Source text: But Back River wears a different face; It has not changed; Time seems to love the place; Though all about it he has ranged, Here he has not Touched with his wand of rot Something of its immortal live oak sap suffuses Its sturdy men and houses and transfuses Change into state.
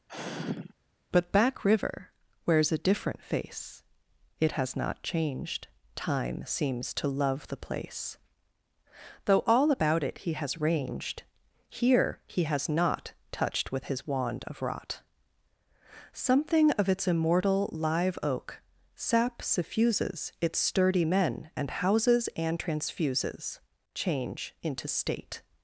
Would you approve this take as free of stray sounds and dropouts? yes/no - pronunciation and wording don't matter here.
no